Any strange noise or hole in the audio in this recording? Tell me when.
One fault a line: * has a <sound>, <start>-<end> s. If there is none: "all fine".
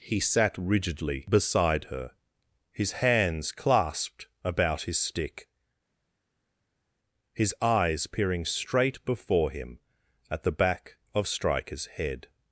all fine